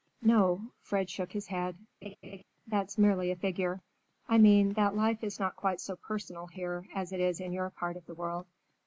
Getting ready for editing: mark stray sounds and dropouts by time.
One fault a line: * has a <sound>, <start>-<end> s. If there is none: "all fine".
* has a laugh, 2.0-2.4 s